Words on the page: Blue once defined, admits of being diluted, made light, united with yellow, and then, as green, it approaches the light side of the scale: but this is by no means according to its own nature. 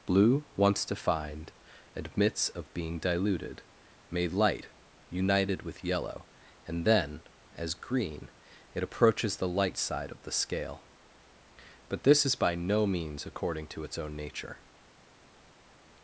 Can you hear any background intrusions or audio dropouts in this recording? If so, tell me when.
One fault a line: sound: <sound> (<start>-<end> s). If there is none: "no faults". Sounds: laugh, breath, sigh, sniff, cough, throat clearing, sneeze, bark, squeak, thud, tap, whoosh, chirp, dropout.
no faults